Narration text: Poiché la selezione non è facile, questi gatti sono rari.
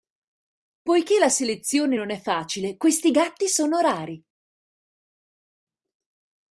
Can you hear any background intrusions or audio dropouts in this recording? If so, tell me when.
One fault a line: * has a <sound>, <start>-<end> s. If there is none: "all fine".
all fine